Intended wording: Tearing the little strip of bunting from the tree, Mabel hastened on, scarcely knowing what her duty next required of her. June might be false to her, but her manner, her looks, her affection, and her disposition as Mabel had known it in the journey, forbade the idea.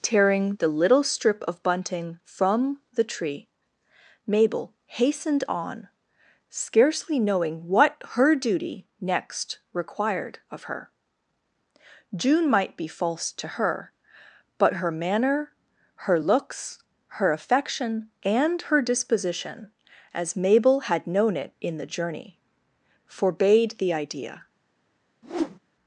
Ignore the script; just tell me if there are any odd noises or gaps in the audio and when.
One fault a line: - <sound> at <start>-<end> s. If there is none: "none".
- whoosh at 25.2-25.6 s